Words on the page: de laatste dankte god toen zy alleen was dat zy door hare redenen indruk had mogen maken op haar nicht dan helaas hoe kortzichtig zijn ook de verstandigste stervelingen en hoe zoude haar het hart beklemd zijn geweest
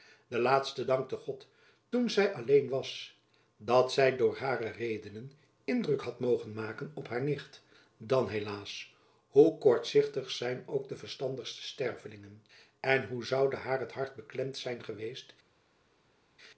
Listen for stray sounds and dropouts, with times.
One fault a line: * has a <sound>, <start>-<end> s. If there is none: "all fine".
all fine